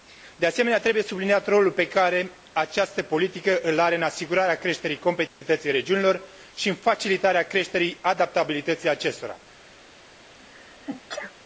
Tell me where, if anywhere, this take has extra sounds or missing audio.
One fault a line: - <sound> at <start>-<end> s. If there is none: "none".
- dropout at 5.3-5.4 s
- sneeze at 10.3-11.4 s